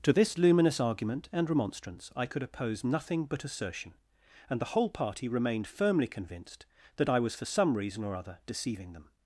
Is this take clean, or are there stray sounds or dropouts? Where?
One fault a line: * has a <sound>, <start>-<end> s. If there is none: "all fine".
all fine